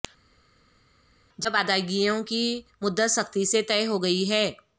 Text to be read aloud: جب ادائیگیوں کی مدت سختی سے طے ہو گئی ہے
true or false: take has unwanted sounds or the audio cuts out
false